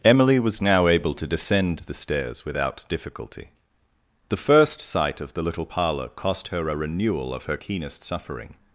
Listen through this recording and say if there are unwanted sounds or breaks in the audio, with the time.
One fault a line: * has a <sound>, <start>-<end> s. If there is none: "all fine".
all fine